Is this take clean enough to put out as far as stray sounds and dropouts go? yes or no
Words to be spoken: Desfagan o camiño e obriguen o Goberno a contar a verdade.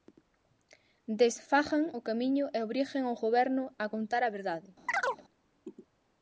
no